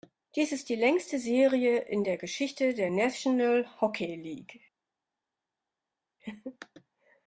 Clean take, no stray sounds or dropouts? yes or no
yes